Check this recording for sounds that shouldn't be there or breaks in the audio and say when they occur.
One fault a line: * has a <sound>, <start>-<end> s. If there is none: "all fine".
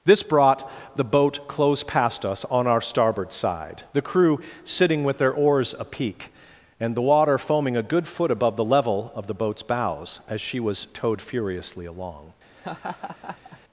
* has a laugh, 12.6-13.6 s